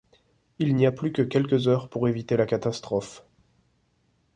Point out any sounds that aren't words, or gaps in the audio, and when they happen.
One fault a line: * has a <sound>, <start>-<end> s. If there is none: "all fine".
all fine